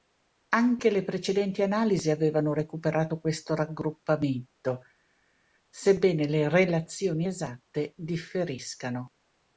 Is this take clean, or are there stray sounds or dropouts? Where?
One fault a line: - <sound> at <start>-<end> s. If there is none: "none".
none